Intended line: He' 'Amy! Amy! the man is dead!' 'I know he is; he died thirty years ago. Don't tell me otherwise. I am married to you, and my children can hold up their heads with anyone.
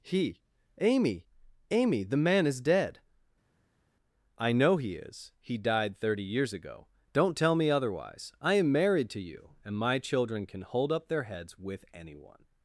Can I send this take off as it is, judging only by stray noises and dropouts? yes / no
yes